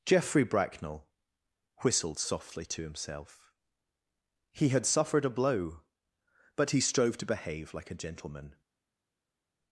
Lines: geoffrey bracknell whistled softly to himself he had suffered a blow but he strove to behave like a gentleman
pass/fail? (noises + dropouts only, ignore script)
pass